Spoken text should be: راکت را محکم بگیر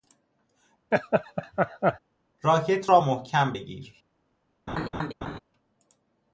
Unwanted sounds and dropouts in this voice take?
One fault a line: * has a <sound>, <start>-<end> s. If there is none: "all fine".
* has a laugh, 0.9-2.0 s
* has a laugh, 4.7-5.4 s